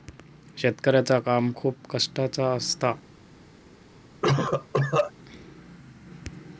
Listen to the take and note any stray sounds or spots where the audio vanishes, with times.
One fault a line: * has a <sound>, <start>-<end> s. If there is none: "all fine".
* has a cough, 4.2-5.1 s